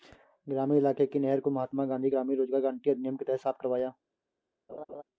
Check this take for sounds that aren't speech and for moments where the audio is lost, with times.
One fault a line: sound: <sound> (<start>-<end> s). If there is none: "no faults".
sound: laugh (4.7-5.0 s)